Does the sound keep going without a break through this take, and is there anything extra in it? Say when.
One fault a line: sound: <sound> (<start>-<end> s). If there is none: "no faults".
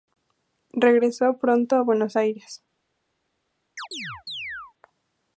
sound: chirp (3.8-4.7 s)